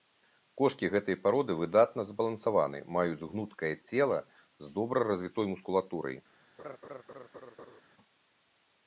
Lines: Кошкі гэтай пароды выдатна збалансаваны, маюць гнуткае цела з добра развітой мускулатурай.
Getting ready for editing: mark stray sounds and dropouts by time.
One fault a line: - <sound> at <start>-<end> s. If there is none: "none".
- laugh at 6.6-7.8 s